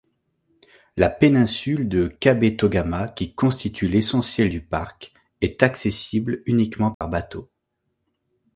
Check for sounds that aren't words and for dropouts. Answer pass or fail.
fail